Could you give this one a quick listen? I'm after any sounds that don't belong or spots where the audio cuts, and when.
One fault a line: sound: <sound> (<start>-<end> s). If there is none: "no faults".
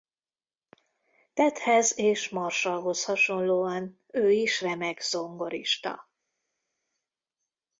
no faults